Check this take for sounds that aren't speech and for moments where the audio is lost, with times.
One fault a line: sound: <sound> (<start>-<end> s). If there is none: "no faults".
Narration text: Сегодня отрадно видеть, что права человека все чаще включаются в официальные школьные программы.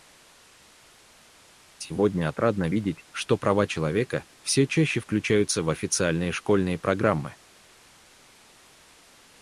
no faults